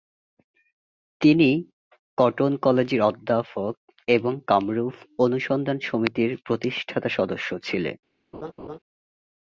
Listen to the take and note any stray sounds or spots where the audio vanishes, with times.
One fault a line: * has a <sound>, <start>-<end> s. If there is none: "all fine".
* has a laugh, 8.3-8.8 s